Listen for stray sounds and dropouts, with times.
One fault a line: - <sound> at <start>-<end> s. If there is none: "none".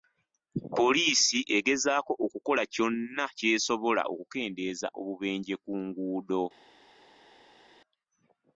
none